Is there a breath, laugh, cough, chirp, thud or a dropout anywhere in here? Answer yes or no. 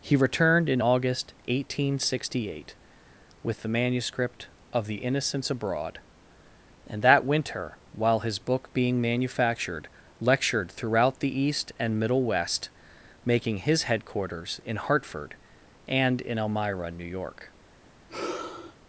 yes